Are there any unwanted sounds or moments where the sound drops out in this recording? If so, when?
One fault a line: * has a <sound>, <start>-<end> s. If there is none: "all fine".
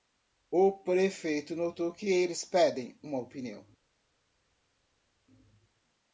all fine